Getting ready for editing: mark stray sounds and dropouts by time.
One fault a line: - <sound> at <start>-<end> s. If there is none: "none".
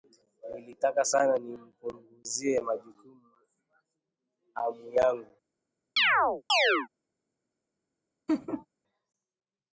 - chirp at 6.0-6.9 s
- laugh at 8.3-8.7 s